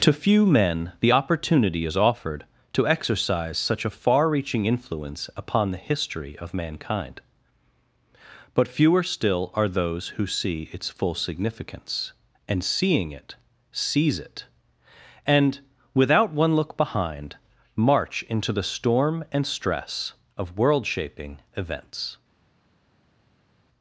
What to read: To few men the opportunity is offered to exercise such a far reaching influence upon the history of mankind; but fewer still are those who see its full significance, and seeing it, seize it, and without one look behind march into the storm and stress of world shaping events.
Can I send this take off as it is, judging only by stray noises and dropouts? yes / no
yes